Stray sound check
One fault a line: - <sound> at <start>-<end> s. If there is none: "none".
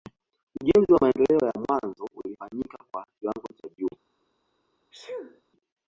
- sneeze at 4.9-5.4 s